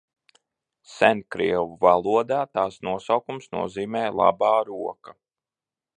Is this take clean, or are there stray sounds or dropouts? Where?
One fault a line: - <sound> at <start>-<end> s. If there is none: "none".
none